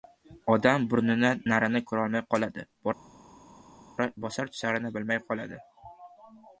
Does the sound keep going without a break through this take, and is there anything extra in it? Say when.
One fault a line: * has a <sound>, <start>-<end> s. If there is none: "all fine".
all fine